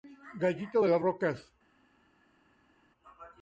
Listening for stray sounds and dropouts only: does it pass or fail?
pass